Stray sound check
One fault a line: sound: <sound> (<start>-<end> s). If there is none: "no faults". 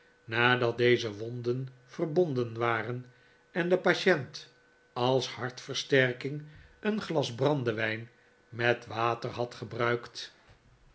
no faults